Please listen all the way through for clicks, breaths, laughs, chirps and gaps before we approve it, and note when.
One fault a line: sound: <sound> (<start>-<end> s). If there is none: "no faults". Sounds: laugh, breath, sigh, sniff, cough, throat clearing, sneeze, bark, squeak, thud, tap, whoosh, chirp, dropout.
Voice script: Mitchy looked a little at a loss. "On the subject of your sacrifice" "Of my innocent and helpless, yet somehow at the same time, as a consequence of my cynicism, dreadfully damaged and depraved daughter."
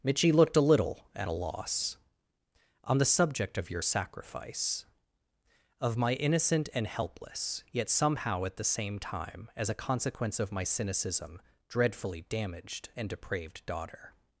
no faults